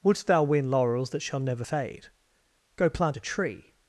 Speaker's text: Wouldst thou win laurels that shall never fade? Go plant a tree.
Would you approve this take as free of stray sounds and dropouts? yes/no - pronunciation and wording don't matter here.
yes